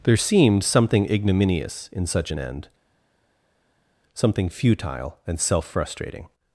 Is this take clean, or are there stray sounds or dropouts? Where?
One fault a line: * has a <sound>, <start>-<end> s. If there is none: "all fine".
all fine